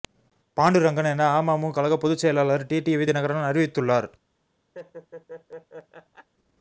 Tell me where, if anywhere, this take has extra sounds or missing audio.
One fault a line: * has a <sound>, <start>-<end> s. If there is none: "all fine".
* has a laugh, 4.7-6.3 s